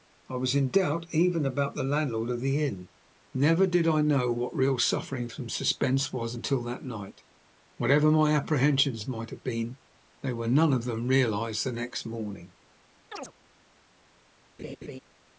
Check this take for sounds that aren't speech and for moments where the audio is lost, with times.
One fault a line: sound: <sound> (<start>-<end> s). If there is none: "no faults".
sound: chirp (13.1-13.3 s)
sound: laugh (14.6-15.0 s)